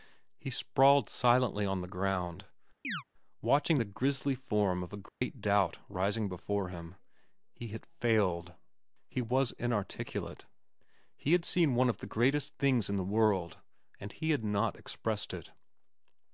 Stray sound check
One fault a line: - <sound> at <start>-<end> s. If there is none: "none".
- chirp at 2.8-3.0 s
- dropout at 5.1-5.2 s